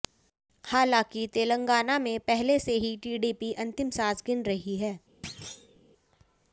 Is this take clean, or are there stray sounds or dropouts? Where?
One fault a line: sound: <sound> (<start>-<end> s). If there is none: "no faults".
sound: thud (5.2-5.8 s)